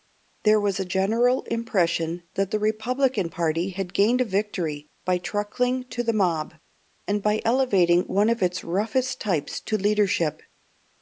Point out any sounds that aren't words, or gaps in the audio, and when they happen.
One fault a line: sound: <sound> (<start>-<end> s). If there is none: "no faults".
no faults